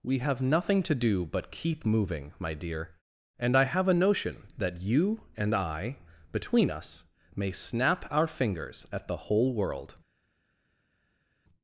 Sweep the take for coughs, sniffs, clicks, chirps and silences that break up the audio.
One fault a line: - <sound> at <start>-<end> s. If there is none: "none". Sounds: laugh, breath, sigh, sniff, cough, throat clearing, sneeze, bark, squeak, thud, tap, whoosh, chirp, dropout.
none